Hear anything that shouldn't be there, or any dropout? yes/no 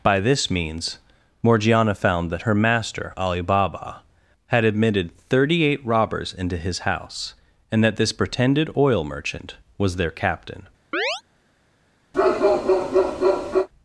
yes